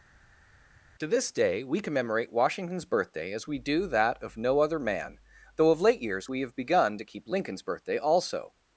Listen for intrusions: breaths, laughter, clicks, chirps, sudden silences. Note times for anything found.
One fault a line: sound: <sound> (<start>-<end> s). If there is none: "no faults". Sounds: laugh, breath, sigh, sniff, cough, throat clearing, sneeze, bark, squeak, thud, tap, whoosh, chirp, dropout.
no faults